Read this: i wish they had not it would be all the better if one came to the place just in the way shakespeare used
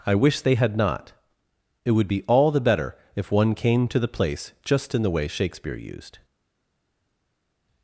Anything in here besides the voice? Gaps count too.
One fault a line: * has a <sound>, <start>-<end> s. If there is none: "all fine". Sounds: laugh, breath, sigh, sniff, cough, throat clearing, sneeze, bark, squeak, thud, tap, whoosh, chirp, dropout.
all fine